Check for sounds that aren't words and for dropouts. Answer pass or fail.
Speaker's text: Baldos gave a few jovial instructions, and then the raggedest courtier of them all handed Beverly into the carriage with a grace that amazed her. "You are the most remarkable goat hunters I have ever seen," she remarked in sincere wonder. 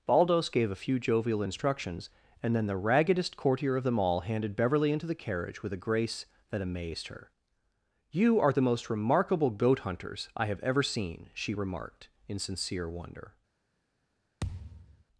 fail